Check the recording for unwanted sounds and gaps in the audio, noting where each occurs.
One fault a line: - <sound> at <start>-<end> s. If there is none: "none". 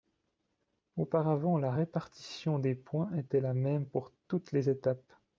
none